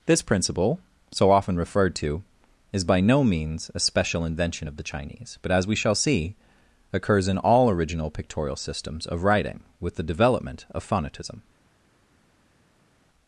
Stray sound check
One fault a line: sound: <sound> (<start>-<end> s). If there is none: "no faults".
no faults